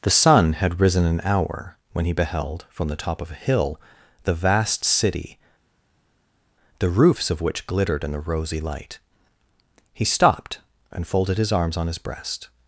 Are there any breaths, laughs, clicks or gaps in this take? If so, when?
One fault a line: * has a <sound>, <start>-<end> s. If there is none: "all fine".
all fine